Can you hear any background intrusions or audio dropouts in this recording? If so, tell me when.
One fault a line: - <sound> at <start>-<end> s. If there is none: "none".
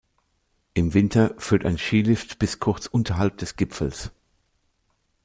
none